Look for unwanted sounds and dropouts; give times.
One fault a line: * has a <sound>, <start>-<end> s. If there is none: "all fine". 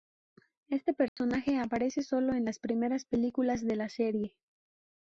* has a dropout, 1.1-1.2 s